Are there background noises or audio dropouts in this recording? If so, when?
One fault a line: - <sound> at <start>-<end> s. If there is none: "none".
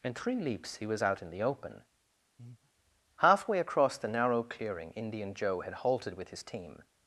- breath at 2.4-2.7 s